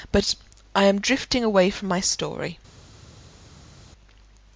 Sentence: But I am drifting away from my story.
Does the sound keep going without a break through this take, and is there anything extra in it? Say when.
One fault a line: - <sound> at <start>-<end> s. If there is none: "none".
none